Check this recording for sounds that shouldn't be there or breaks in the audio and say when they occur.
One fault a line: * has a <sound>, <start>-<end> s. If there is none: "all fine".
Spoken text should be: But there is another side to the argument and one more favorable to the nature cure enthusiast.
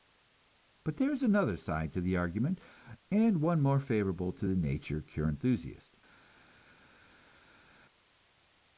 all fine